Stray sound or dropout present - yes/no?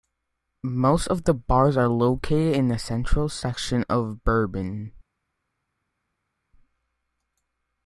no